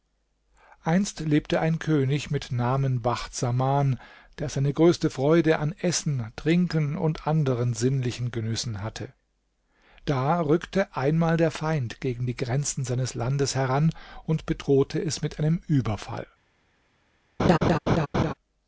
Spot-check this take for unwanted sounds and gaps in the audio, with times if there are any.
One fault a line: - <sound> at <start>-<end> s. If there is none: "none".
- laugh at 17.4-18.3 s